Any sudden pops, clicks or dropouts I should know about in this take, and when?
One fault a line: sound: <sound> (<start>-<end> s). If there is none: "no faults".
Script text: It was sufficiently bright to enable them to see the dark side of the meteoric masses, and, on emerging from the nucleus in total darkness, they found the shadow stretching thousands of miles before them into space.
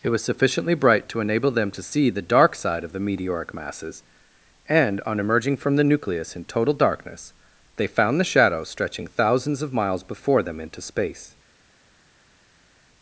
no faults